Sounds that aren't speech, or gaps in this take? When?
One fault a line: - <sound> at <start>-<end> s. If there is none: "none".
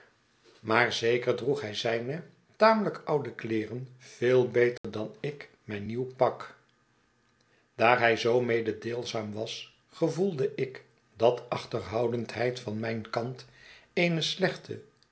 - dropout at 4.8-4.8 s